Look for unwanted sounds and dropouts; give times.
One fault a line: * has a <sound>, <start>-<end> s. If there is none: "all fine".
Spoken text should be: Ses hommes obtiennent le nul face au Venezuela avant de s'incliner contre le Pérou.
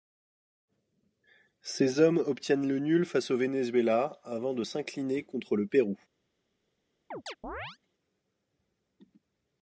* has a chirp, 7.1-7.8 s